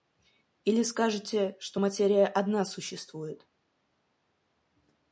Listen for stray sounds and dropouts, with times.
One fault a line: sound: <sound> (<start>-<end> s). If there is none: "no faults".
no faults